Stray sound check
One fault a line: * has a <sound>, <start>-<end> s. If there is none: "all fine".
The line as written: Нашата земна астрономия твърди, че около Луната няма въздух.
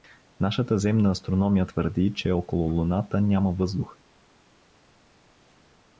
all fine